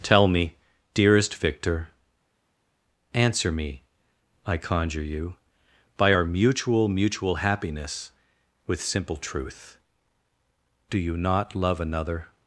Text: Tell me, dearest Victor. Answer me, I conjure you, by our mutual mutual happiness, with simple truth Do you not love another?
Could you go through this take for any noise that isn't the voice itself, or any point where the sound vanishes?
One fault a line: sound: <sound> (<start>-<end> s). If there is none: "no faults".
no faults